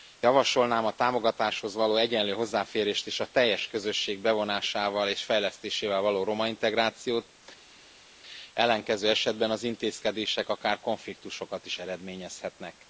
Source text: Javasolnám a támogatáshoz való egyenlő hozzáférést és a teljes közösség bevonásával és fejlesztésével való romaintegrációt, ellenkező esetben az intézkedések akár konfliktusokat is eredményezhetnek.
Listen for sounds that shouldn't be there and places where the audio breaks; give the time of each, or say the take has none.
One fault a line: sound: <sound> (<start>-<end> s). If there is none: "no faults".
no faults